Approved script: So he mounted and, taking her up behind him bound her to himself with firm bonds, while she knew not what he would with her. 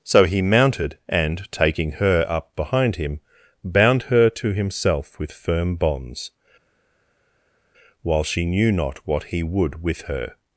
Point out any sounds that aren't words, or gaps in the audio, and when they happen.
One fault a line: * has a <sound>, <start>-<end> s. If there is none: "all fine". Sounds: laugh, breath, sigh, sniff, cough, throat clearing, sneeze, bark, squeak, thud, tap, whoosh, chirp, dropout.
all fine